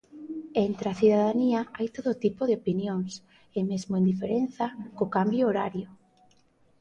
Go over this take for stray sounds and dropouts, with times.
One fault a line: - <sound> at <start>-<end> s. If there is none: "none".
none